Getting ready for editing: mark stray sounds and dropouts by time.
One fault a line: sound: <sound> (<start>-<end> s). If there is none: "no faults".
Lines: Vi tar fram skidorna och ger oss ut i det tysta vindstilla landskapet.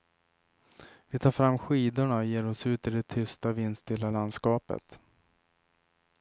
no faults